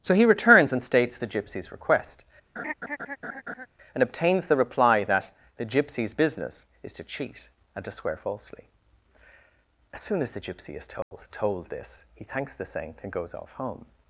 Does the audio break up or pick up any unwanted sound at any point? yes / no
yes